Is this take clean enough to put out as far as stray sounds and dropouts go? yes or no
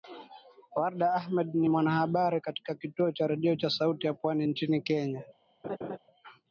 no